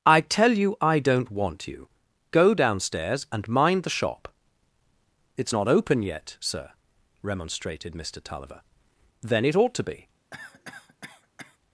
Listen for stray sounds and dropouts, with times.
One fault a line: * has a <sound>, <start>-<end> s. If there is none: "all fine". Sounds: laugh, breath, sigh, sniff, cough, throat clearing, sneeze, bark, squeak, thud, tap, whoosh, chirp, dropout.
* has a cough, 10.3-11.6 s